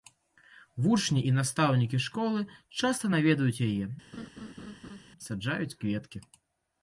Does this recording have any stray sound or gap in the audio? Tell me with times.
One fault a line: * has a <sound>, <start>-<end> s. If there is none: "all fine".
* has a laugh, 4.1-5.0 s